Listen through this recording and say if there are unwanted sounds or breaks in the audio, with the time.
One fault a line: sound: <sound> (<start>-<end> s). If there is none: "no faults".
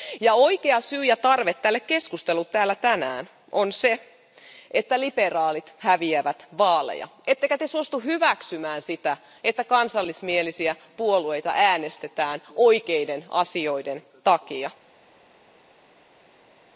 no faults